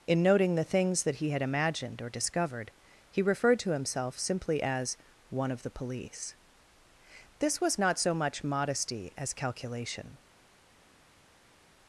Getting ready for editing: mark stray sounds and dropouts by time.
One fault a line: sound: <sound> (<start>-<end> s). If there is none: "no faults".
no faults